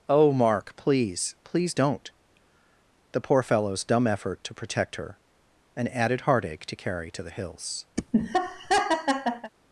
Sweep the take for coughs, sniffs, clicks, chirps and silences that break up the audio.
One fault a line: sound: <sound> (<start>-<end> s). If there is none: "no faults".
sound: laugh (8.0-9.5 s)